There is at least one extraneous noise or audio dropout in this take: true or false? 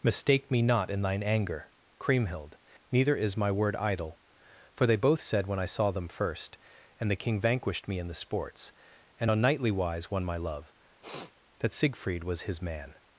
true